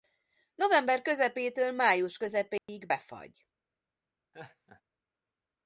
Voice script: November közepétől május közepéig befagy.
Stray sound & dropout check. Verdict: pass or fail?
fail